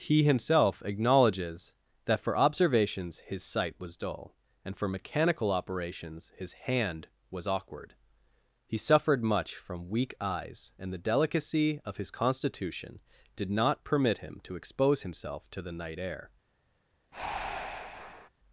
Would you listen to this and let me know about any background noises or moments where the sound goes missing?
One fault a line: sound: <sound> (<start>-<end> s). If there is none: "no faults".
sound: breath (17.1-18.3 s)